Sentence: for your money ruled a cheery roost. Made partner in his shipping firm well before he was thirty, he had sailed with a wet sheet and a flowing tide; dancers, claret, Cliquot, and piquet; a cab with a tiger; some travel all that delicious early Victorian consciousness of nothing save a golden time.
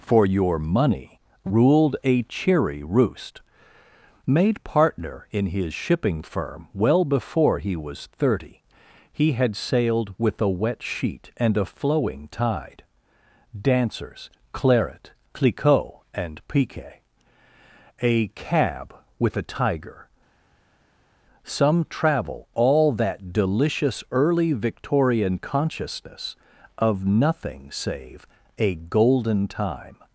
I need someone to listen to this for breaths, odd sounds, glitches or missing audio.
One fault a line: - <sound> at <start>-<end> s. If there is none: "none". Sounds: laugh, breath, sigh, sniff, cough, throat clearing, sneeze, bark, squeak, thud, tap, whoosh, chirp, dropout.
none